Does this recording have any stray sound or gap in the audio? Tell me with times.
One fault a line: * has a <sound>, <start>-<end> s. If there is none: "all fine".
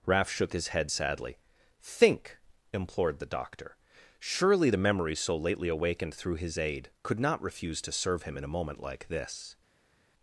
all fine